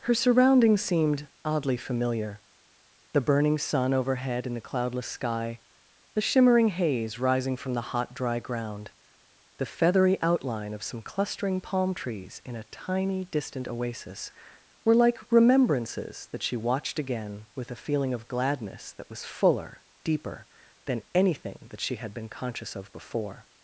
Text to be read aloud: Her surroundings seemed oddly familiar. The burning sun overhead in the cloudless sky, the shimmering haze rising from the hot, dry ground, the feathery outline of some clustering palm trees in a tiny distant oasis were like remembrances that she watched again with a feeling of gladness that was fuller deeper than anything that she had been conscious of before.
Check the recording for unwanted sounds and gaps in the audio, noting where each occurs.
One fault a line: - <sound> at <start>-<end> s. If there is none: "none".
none